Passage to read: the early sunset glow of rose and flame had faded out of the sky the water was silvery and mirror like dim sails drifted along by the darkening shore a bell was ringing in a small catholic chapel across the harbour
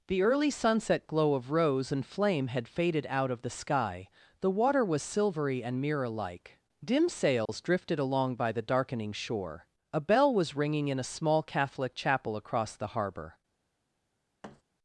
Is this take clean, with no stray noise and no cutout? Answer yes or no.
no